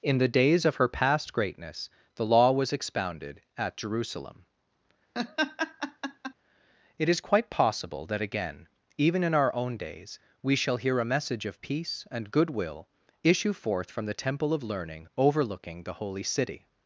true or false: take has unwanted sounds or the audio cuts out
true